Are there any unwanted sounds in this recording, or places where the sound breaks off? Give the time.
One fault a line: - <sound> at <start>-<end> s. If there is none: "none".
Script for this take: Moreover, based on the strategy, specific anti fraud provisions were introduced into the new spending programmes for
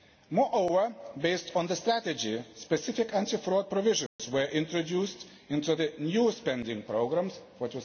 - dropout at 4.1-4.2 s